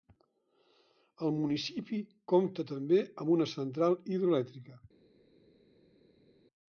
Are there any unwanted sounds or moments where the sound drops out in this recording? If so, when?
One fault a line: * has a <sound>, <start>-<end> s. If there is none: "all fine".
all fine